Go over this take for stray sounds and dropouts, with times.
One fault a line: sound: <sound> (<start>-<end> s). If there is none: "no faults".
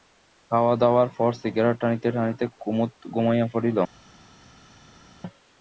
no faults